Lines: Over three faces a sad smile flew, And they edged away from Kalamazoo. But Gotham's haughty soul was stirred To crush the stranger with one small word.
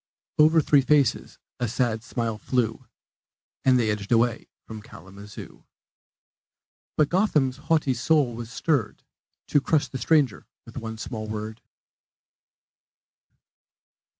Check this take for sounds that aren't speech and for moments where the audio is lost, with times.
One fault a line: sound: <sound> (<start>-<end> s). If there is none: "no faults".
no faults